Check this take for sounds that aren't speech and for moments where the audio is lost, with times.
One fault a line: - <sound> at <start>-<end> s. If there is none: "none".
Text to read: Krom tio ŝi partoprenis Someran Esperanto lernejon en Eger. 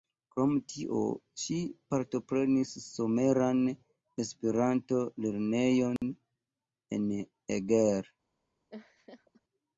- dropout at 6.0-6.0 s
- laugh at 8.7-9.4 s